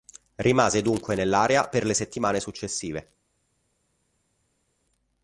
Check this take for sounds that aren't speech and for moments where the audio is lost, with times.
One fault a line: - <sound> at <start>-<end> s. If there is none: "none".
none